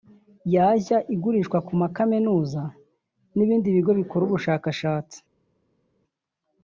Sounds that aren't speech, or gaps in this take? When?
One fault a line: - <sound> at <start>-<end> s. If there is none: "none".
none